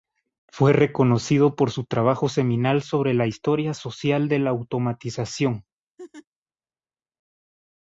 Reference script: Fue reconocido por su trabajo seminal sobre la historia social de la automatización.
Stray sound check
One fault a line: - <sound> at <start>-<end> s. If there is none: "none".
- laugh at 6.0-6.3 s